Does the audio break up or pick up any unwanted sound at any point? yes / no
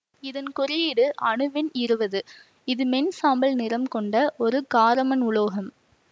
no